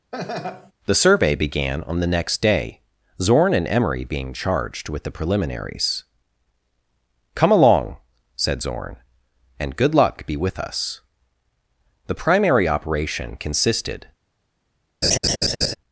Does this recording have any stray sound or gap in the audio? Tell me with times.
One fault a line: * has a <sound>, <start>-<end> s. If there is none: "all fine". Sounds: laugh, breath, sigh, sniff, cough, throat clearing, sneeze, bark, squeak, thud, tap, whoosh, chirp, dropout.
* has a laugh, 0.1-0.7 s
* has a laugh, 15.0-15.8 s